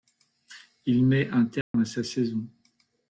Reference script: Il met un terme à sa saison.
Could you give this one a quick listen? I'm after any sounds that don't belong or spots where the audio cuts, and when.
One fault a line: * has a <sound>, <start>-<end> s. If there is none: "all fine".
* has a dropout, 1.6-1.7 s